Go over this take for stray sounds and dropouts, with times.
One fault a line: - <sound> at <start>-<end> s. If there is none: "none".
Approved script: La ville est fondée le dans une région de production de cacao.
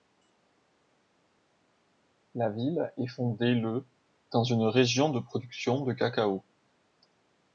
none